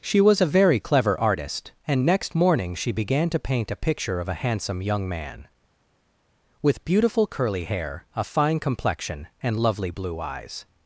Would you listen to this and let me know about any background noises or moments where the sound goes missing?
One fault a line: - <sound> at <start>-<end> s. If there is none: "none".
none